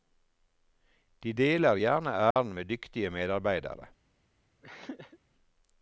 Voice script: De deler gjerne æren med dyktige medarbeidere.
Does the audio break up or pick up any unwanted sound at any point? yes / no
yes